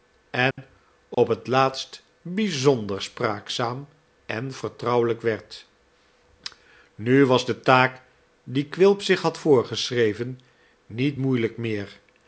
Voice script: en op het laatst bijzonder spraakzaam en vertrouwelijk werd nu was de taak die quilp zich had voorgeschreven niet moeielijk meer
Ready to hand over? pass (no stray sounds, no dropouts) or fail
fail